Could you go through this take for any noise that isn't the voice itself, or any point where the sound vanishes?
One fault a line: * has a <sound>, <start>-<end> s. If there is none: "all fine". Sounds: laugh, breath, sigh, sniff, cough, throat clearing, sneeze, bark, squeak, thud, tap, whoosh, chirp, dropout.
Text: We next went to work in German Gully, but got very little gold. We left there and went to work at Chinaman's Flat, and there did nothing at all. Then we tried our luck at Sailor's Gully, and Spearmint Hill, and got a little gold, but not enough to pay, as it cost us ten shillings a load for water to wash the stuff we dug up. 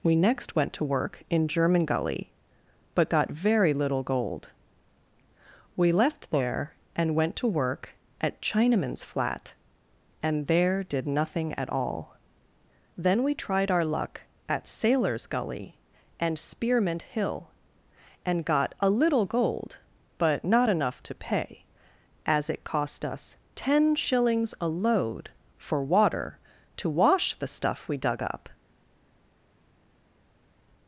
all fine